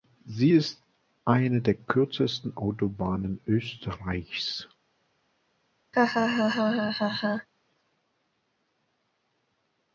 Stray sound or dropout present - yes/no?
yes